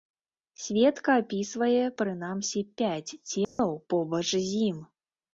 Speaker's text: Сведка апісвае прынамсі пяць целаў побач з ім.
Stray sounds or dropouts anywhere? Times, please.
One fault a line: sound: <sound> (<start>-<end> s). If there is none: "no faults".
sound: dropout (3.4-3.6 s)